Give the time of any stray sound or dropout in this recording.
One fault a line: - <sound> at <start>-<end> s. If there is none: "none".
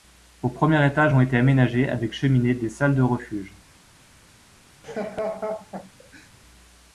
- laugh at 4.8-6.3 s